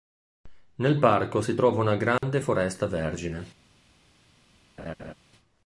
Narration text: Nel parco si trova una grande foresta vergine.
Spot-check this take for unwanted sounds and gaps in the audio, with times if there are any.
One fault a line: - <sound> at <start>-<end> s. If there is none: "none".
- dropout at 2.2-2.2 s
- laugh at 4.8-5.1 s